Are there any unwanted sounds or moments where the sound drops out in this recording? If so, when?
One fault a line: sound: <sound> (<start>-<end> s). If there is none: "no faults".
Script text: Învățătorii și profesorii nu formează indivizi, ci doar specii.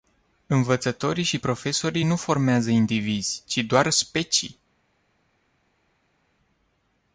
no faults